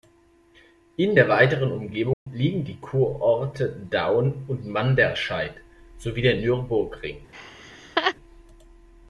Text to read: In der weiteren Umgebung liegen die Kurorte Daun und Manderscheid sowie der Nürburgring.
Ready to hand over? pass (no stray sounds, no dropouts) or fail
fail